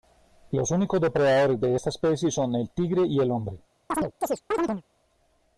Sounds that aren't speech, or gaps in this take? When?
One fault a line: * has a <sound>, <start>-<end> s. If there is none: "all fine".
* has a chirp, 3.9-4.8 s